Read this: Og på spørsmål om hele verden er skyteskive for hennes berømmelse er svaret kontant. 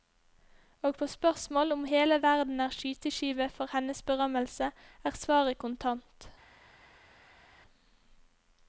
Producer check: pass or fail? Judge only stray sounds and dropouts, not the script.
pass